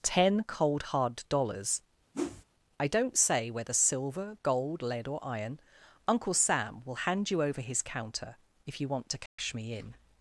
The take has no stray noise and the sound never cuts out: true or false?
false